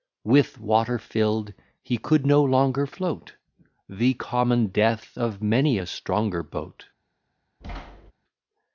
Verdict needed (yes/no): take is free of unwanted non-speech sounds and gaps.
no